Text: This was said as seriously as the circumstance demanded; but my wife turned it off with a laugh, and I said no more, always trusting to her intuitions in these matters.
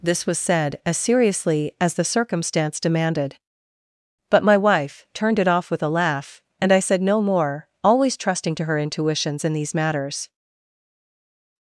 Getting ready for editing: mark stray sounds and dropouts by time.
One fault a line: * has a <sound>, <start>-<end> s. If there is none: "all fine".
all fine